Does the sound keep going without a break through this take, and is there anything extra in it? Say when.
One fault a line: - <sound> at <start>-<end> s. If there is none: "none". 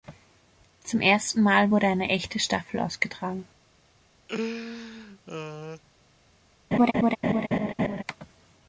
- laugh at 4.3-5.8 s
- laugh at 6.7-8.0 s